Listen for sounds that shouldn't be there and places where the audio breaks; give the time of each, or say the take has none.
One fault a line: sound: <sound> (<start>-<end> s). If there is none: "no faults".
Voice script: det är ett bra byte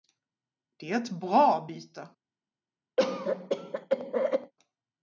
sound: cough (3.0-4.5 s)